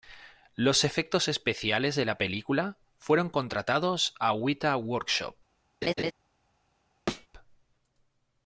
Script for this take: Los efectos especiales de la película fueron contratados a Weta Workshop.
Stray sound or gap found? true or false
true